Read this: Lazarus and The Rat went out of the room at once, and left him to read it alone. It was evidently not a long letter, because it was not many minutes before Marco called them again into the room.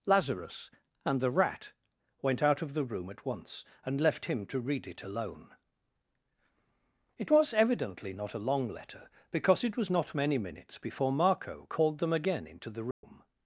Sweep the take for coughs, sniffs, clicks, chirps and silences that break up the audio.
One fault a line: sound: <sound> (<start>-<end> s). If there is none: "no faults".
sound: dropout (12.9-13.0 s)